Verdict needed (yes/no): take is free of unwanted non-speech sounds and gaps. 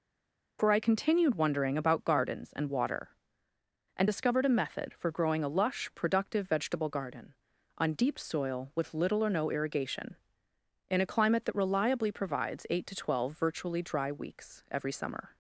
yes